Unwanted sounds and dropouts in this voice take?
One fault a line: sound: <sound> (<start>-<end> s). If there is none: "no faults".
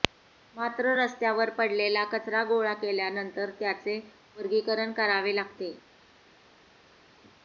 no faults